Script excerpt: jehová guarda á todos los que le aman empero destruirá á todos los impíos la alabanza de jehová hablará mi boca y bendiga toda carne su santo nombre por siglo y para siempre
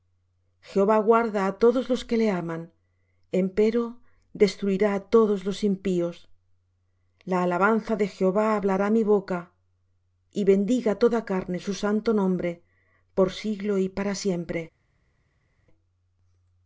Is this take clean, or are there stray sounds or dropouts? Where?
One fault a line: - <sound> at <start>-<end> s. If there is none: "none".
none